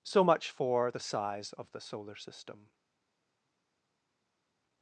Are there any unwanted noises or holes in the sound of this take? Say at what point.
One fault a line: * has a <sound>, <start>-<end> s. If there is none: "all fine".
all fine